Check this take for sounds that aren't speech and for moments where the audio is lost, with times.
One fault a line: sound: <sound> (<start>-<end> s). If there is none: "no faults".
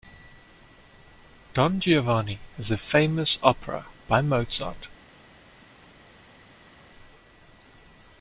no faults